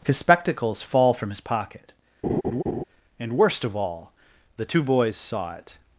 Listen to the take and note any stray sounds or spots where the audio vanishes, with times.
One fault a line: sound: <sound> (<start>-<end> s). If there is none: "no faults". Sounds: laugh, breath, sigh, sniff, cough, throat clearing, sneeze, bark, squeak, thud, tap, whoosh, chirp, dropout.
sound: laugh (2.2-2.8 s)